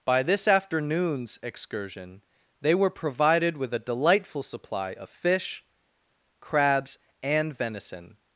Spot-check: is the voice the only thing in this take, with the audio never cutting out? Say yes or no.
yes